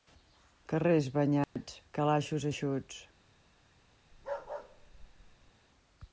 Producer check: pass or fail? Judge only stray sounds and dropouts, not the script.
fail